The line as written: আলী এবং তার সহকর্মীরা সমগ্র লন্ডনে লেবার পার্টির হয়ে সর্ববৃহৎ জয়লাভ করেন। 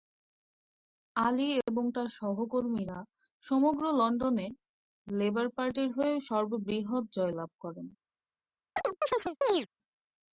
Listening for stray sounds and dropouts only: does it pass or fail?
fail